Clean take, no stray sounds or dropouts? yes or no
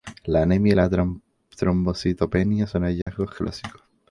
no